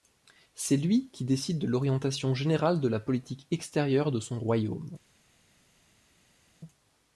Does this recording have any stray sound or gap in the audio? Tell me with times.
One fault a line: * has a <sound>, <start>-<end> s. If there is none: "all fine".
all fine